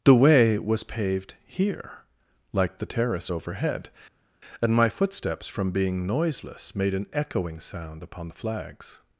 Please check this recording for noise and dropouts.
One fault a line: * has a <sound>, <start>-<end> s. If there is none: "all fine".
all fine